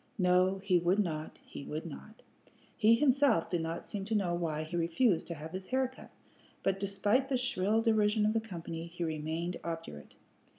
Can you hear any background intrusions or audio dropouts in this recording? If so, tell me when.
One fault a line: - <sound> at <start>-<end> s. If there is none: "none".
none